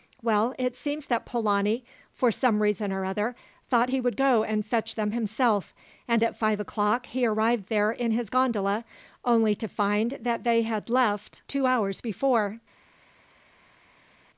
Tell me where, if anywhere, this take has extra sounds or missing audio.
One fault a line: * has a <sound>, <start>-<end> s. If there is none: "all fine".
all fine